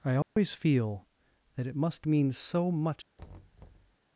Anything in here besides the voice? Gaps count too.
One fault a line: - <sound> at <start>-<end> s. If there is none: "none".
- dropout at 0.2-0.4 s
- thud at 3.2-4.0 s